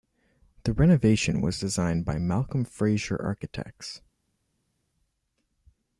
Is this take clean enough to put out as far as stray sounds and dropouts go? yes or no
yes